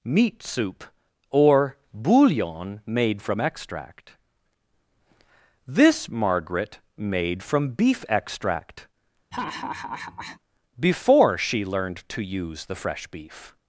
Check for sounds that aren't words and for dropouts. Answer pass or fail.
fail